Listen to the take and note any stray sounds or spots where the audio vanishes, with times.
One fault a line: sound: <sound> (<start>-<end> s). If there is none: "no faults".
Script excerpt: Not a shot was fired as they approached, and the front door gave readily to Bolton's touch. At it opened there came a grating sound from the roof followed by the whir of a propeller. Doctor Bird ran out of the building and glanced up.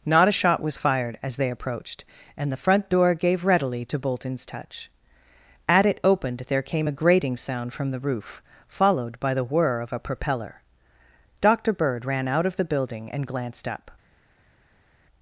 no faults